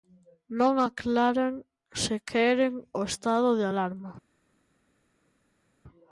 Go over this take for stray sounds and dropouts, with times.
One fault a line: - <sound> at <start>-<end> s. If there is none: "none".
none